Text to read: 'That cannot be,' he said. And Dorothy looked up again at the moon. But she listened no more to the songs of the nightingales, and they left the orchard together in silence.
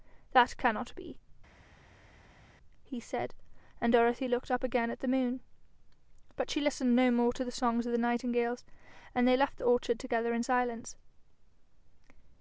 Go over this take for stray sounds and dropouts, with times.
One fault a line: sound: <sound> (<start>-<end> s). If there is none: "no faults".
no faults